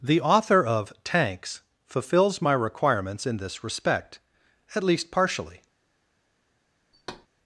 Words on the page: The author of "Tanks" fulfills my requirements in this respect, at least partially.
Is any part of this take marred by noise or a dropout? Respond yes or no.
yes